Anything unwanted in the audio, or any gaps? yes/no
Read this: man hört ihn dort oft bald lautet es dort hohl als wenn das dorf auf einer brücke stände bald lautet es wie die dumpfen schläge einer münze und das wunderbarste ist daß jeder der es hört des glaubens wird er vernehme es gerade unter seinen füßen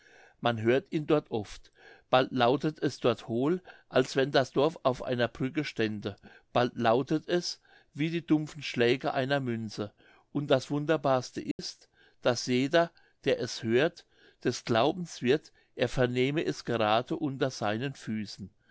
yes